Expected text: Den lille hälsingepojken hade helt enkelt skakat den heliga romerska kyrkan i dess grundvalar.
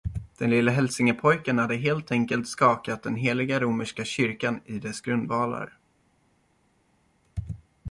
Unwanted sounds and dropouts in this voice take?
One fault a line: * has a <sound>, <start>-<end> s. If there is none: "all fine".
all fine